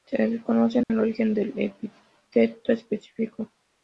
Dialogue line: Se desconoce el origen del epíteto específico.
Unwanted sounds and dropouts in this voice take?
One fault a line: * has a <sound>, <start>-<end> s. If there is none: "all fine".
* has a dropout, 0.8-0.9 s